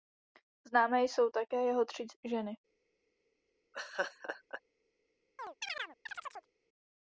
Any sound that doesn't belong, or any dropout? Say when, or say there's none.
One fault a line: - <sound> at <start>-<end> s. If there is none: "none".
- laugh at 3.7-4.6 s
- chirp at 5.4-6.5 s